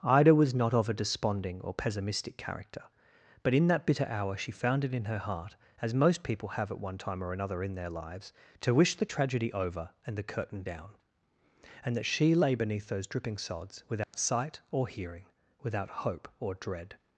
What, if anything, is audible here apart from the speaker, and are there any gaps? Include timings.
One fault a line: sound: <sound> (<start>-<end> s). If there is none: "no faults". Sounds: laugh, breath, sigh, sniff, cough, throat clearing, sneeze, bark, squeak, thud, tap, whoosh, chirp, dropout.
sound: dropout (14.0-14.1 s)